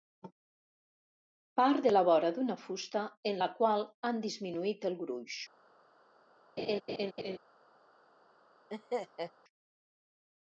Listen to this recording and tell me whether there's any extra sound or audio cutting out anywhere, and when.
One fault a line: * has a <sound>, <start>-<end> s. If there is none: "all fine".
* has a laugh, 6.6-7.4 s
* has a laugh, 8.7-9.3 s